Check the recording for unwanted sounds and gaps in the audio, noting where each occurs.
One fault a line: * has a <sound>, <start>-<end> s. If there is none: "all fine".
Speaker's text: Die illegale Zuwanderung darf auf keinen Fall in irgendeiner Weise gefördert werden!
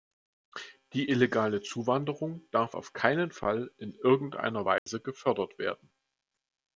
* has a dropout, 4.8-4.9 s